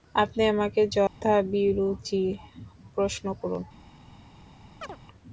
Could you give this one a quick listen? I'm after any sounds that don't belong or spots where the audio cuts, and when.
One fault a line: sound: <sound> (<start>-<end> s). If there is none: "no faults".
sound: dropout (1.1-1.2 s)
sound: chirp (4.8-5.0 s)